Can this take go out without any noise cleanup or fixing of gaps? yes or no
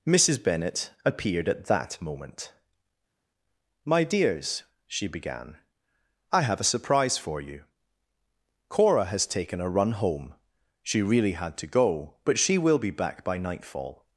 yes